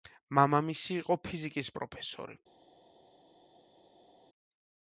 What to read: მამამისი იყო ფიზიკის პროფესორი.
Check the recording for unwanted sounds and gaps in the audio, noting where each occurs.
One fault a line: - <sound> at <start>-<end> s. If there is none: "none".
none